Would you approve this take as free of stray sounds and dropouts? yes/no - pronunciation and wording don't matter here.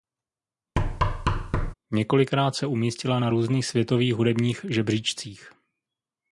no